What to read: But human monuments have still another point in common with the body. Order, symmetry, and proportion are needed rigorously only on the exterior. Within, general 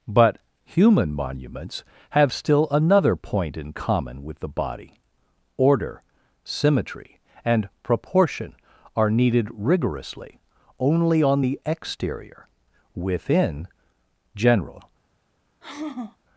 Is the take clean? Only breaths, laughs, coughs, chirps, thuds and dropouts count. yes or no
no